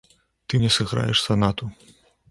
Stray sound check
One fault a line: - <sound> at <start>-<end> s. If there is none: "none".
none